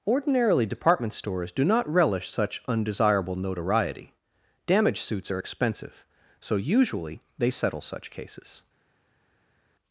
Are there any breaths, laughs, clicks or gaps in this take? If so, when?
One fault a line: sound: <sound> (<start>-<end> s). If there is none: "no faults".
no faults